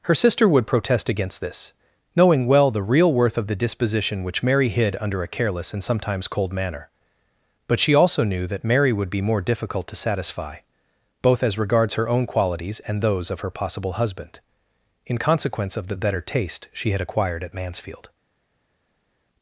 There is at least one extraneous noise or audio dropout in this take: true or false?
false